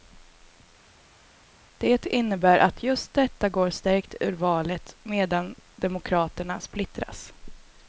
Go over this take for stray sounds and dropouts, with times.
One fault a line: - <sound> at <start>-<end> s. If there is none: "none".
none